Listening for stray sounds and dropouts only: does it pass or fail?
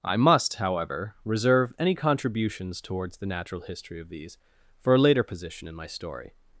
pass